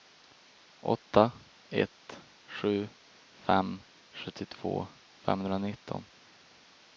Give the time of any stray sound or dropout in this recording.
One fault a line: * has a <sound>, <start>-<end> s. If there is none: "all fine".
all fine